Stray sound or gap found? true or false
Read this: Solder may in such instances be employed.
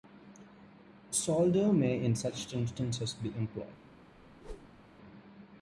true